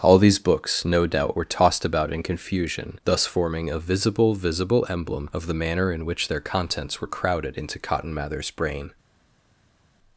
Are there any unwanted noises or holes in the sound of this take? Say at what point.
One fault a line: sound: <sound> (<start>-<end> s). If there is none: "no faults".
no faults